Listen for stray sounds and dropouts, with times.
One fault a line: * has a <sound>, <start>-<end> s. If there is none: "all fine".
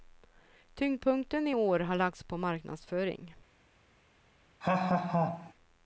* has a laugh, 4.6-5.5 s